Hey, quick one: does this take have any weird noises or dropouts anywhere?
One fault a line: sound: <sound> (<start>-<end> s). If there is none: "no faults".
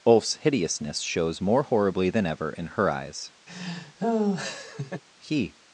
sound: laugh (3.5-5.0 s)